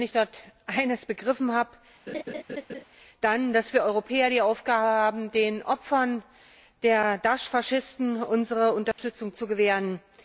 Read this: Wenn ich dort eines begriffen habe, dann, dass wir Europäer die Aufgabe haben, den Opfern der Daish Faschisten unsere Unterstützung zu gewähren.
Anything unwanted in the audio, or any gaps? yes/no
yes